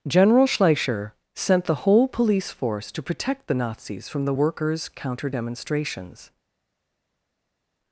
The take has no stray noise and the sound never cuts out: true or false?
true